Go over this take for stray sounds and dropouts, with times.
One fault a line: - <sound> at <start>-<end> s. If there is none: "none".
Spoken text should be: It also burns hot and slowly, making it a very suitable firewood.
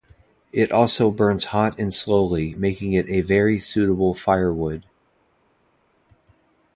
none